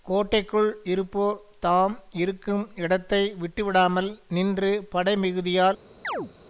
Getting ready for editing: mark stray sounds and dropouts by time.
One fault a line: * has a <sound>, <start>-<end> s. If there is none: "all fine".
* has a chirp, 6.0-6.3 s